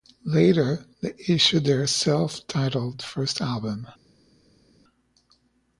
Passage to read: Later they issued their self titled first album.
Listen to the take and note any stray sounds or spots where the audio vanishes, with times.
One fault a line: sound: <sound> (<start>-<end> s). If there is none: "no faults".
no faults